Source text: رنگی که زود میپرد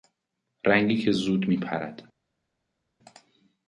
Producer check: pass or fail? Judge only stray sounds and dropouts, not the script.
pass